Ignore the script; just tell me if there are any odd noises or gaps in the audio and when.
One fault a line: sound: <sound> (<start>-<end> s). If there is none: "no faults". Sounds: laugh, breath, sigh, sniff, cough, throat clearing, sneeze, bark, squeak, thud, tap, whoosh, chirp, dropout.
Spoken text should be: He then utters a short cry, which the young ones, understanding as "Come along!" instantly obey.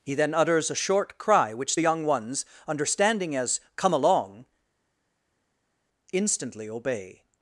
no faults